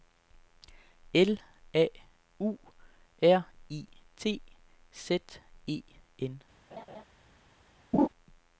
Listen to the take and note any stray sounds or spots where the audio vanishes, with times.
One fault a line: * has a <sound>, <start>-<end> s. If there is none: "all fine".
* has a laugh, 6.7-7.0 s
* has a laugh, 7.9-8.1 s